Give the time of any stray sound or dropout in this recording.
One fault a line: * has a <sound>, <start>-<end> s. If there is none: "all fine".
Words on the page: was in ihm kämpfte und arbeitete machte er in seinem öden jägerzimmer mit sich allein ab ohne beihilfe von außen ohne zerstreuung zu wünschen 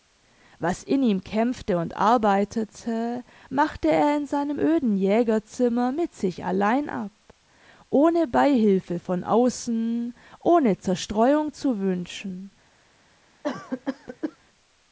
* has a cough, 13.4-14.4 s